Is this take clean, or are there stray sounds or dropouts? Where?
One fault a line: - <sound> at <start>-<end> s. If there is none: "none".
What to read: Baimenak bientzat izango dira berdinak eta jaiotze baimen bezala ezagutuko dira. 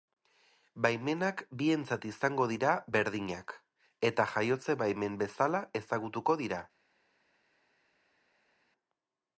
none